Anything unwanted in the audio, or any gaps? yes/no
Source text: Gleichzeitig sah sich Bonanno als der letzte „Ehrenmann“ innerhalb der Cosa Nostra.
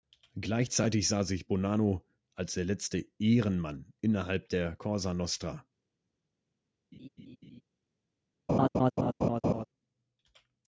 yes